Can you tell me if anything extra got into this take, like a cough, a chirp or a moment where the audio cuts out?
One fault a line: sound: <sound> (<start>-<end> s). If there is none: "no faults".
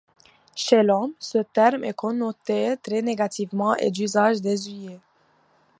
no faults